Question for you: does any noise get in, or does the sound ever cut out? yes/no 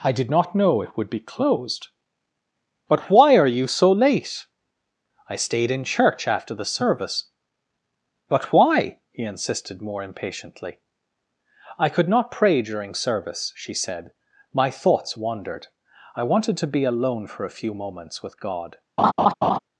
yes